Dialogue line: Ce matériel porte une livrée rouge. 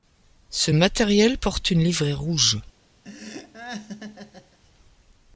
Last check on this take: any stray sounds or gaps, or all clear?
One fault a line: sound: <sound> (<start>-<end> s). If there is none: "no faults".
sound: laugh (3.0-4.6 s)